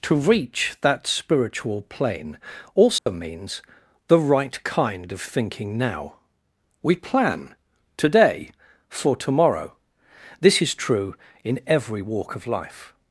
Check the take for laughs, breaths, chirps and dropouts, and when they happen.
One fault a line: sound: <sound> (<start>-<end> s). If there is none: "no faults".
sound: dropout (3.0-3.1 s)